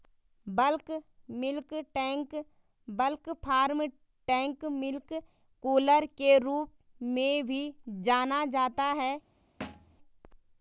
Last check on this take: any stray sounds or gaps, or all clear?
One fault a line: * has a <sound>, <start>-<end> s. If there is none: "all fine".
* has a thud, 9.6-10.0 s